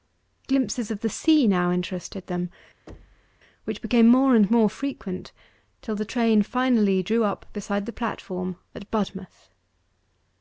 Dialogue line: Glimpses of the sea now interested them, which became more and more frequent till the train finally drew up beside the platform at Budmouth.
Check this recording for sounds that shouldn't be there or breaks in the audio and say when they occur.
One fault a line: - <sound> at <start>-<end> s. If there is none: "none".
- thud at 2.9-3.4 s